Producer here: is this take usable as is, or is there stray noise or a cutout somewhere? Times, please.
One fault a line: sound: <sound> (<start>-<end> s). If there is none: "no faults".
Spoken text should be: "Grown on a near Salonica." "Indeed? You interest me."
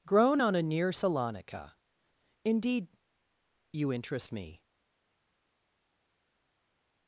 no faults